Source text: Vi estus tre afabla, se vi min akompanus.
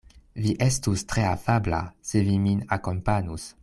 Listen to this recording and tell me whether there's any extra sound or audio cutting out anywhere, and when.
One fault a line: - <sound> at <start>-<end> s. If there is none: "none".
none